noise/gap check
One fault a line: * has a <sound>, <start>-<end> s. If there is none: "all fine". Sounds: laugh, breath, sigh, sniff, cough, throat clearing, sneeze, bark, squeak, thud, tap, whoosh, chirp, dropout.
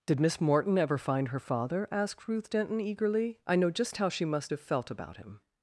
all fine